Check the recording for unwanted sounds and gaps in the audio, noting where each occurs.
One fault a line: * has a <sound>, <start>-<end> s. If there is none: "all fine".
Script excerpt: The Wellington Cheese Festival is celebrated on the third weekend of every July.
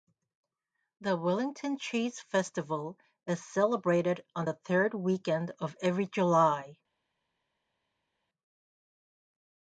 all fine